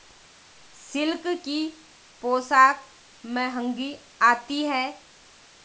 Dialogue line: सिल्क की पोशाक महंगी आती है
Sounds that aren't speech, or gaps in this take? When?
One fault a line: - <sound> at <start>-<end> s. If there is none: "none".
none